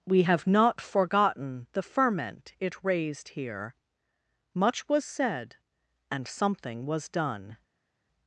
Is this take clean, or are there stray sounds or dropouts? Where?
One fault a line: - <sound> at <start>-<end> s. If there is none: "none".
none